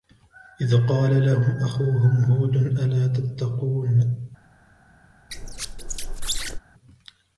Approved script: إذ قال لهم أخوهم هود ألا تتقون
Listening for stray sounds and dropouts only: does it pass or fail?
fail